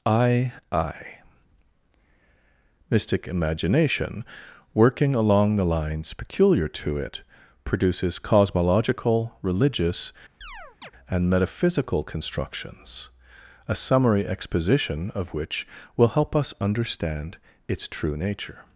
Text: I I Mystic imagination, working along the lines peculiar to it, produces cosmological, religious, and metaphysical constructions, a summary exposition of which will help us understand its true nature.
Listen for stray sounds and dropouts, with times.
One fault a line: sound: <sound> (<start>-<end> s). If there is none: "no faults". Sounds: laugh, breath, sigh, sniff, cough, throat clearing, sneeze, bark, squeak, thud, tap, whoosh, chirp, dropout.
sound: chirp (10.4-10.9 s)